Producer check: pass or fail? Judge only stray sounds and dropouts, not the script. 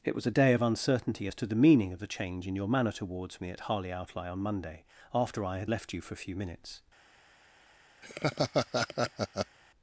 fail